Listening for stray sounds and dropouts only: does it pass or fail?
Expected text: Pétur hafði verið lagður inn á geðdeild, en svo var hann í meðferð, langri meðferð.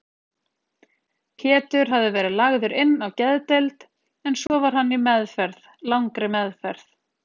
fail